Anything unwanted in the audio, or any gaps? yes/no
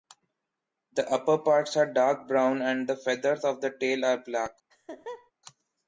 yes